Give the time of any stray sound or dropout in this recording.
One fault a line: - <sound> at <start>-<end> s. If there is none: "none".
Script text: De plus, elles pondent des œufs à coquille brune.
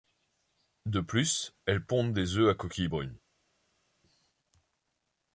none